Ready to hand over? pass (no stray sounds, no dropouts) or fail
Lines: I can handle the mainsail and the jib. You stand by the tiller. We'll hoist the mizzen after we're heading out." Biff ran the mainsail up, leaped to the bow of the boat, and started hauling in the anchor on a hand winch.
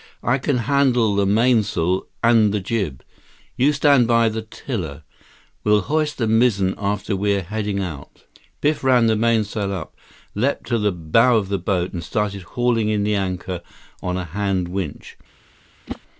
fail